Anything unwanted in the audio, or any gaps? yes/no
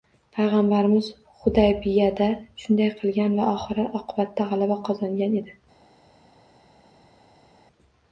no